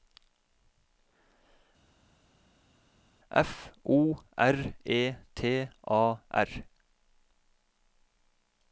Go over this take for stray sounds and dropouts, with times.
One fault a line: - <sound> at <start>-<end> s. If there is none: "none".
none